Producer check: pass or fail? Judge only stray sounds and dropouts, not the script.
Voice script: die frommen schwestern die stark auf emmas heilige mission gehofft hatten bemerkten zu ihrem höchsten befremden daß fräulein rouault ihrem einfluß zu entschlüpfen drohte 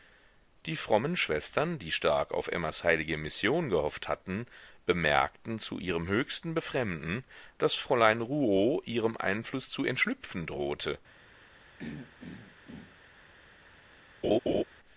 fail